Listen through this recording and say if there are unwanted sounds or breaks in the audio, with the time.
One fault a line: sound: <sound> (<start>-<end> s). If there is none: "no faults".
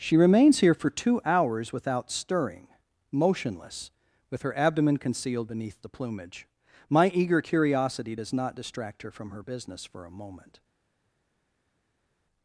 no faults